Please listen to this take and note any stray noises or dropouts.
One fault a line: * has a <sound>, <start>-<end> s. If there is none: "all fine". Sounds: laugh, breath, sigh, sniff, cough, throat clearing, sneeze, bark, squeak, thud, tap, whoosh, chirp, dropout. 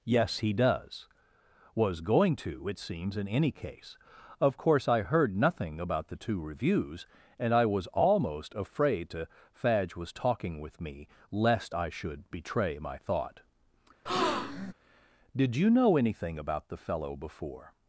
* has a breath, 14.1-14.7 s